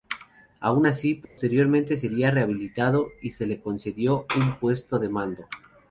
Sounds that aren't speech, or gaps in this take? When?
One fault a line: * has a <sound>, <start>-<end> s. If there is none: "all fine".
* has a dropout, 1.2-1.4 s